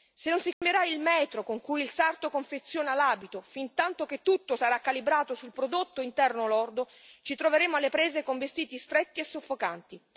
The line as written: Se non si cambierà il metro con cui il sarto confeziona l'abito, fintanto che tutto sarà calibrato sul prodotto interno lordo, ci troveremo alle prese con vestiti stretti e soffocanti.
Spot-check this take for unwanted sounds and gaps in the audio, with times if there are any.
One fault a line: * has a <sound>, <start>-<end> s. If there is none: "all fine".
* has a dropout, 0.5-0.6 s